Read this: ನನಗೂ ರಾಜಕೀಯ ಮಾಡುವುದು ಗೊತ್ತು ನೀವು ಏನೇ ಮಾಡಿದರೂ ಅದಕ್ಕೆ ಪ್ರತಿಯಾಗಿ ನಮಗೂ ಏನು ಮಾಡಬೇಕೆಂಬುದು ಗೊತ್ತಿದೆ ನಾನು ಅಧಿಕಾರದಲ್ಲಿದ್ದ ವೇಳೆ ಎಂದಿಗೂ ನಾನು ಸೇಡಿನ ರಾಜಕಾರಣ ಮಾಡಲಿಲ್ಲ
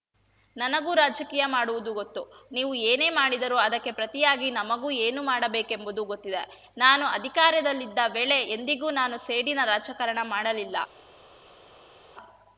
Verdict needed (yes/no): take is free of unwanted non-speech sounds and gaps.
yes